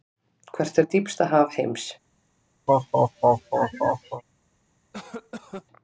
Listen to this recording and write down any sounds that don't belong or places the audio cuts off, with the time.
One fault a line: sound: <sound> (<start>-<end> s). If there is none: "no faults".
sound: laugh (2.7-4.2 s)
sound: cough (4.9-5.7 s)